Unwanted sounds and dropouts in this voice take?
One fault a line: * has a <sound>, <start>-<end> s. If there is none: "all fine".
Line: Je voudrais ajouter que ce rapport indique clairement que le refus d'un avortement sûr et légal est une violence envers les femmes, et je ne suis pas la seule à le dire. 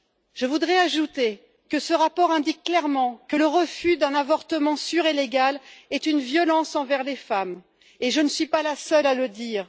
all fine